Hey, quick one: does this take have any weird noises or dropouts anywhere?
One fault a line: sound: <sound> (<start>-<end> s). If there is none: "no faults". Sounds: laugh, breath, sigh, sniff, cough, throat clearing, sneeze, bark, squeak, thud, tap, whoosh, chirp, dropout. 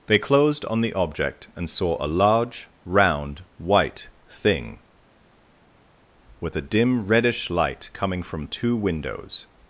no faults